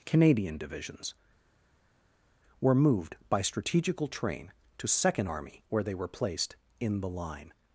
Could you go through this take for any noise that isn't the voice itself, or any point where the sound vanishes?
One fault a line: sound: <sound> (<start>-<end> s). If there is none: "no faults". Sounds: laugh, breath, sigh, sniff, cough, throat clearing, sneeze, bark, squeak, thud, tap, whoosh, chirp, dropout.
no faults